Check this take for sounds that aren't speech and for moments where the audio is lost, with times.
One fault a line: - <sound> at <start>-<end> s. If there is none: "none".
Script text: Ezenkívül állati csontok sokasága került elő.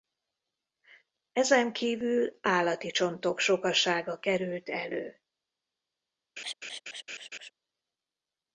- laugh at 6.4-7.5 s